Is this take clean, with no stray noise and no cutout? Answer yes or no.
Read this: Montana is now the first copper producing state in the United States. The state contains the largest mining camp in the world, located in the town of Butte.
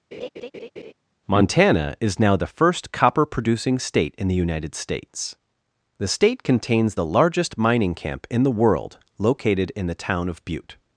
no